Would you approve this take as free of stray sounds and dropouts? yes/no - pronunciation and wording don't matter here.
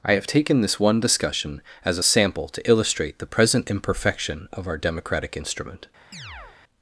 no